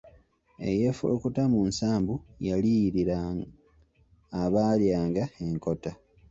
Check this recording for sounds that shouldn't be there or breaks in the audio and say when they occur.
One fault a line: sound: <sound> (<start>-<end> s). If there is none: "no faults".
no faults